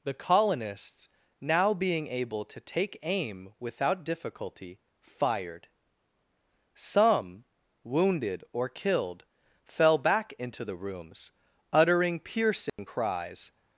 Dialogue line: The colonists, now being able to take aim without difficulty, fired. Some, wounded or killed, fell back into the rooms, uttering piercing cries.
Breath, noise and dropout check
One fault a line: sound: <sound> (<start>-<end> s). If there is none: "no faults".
sound: dropout (12.7-12.8 s)